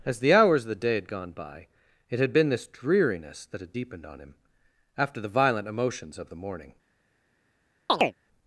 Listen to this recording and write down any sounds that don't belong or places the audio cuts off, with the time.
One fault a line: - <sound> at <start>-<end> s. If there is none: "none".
- chirp at 7.9-8.1 s